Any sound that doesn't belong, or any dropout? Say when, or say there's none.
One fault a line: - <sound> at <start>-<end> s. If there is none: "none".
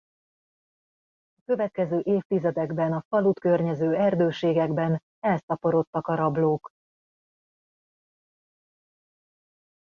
none